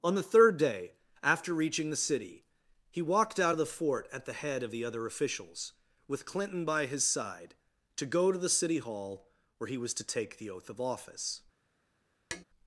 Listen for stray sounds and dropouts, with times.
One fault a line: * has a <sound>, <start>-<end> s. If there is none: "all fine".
* has a tap, 12.3-12.4 s